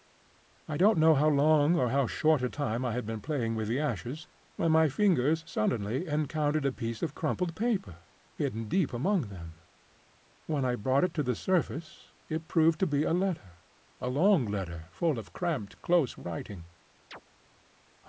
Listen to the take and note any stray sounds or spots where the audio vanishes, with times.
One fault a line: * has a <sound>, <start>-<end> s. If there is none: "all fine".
* has a chirp, 17.1-17.2 s